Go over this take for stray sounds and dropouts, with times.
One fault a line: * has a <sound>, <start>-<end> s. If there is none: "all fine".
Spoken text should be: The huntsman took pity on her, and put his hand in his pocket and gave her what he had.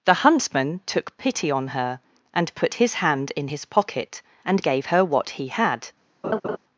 * has a laugh, 6.2-6.6 s